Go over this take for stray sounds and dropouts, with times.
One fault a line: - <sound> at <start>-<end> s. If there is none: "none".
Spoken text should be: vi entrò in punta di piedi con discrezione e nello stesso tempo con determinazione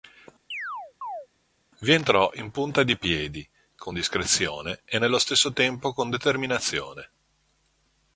- chirp at 0.5-1.3 s